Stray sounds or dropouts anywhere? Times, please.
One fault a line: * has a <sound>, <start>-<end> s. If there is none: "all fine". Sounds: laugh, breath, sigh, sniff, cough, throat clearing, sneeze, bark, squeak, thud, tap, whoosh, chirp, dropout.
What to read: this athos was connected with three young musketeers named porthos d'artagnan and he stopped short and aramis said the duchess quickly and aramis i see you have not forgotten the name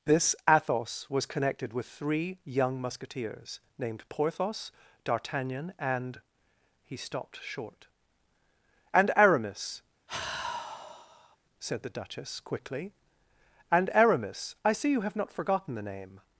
* has a sigh, 10.1-11.4 s